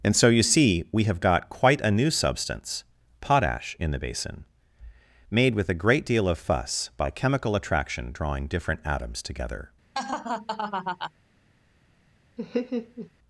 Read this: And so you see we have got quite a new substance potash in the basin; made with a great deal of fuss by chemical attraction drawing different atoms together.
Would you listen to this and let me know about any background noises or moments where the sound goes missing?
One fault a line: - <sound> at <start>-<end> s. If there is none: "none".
- laugh at 9.9-11.1 s
- laugh at 12.4-13.1 s